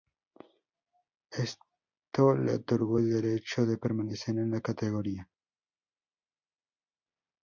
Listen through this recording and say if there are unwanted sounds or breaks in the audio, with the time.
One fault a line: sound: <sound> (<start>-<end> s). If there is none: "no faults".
no faults